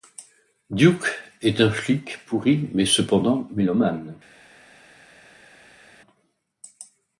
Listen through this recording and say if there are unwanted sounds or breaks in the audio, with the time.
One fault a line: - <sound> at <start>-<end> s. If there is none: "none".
none